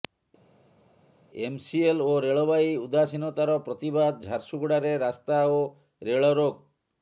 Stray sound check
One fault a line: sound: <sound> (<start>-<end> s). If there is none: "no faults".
no faults